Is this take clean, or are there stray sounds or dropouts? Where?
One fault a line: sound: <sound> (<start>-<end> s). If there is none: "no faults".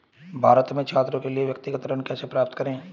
no faults